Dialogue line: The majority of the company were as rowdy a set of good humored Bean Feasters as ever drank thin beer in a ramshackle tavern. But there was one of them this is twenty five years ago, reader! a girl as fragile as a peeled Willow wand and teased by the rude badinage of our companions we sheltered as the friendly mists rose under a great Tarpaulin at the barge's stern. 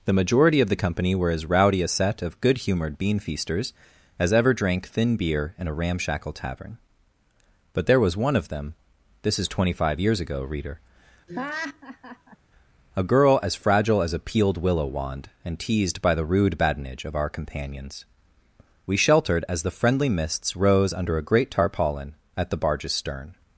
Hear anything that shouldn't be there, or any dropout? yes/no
yes